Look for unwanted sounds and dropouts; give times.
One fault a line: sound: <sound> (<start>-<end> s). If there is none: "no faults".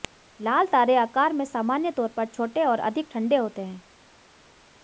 no faults